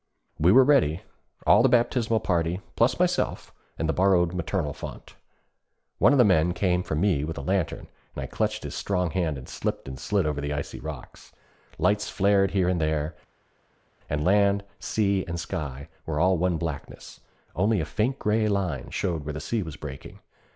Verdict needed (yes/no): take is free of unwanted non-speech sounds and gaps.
yes